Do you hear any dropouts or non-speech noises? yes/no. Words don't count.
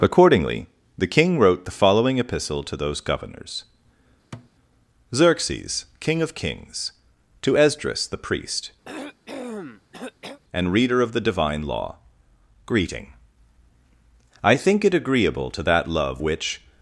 yes